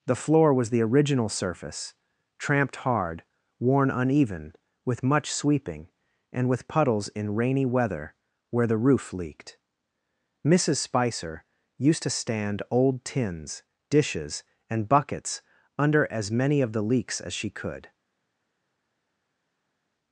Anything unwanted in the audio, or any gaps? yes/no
no